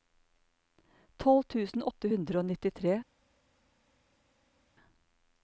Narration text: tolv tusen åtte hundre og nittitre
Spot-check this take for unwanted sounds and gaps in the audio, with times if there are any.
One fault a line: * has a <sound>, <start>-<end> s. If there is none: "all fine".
all fine